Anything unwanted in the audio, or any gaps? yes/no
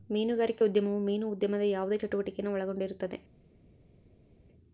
no